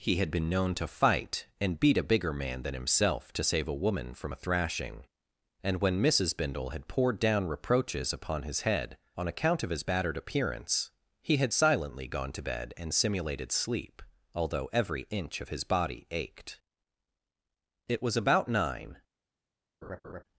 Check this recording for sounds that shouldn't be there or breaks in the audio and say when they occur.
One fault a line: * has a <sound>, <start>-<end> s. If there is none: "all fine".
* has a laugh, 19.8-20.2 s